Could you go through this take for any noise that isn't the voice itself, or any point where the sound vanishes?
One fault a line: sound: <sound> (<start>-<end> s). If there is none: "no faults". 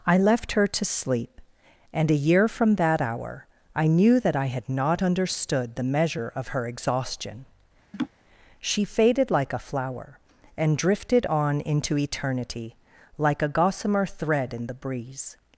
sound: laugh (7.9-8.1 s)